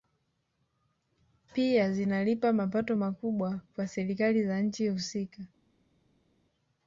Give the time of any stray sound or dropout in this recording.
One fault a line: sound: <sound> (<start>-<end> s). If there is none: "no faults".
no faults